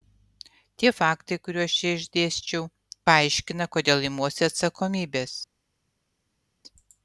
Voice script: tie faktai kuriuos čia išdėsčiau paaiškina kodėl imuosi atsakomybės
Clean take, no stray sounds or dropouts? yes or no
yes